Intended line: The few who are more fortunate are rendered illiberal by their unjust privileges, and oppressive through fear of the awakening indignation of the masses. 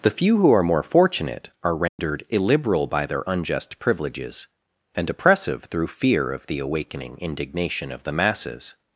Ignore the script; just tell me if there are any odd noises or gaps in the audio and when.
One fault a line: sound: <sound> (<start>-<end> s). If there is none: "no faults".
sound: dropout (1.9-2.0 s)